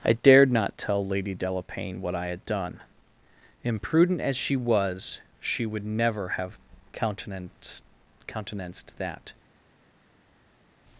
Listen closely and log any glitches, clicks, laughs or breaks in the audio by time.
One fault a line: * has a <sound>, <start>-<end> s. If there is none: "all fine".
all fine